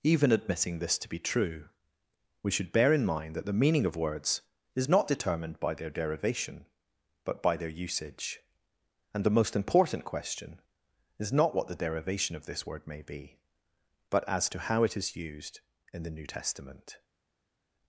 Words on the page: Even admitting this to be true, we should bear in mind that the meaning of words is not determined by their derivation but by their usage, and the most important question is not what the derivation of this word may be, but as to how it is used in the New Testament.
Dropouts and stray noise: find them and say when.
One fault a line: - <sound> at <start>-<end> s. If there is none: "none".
none